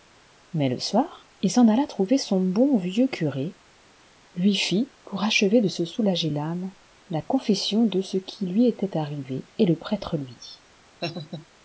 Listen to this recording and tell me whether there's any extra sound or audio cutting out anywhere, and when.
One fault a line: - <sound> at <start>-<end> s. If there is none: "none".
- laugh at 11.0-11.5 s